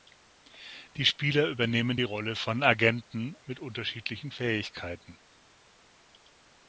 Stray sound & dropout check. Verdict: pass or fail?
pass